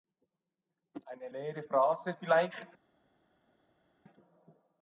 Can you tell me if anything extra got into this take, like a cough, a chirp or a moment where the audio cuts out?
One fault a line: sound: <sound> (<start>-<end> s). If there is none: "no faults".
no faults